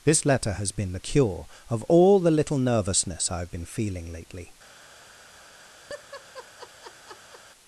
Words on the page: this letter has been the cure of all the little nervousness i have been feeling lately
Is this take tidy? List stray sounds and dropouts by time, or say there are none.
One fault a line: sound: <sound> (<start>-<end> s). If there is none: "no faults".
sound: laugh (5.9-7.4 s)